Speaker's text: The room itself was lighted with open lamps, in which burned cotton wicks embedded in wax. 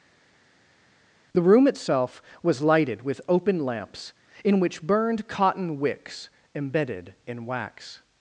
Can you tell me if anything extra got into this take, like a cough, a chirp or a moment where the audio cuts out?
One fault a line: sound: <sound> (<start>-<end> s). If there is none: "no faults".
no faults